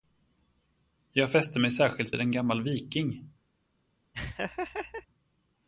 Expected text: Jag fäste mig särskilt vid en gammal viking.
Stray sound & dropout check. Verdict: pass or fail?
fail